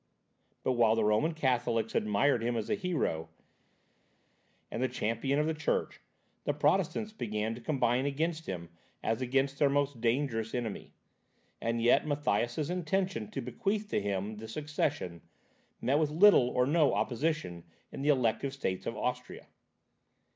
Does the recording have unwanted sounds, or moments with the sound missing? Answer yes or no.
no